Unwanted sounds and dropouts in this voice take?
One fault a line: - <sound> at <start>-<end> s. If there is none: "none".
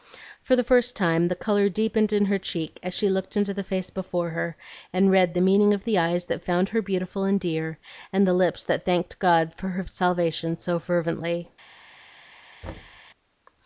- thud at 12.6-13.0 s